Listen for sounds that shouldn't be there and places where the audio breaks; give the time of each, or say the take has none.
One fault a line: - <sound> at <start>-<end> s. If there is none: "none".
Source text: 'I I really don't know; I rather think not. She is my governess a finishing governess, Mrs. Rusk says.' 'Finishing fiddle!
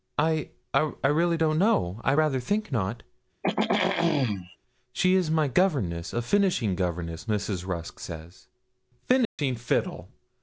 - throat clearing at 3.4-4.6 s
- dropout at 9.2-9.4 s